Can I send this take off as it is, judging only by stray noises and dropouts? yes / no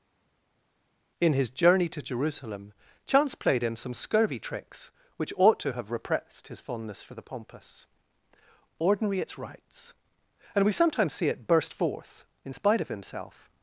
yes